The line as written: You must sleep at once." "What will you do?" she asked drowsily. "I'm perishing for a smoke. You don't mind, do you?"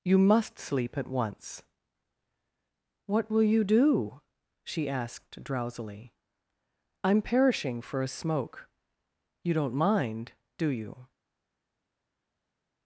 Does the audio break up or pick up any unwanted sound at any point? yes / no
no